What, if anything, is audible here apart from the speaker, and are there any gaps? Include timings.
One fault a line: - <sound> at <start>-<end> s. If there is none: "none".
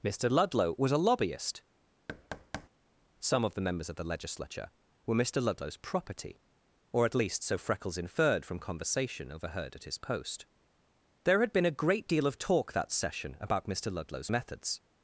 - thud at 2.1-2.7 s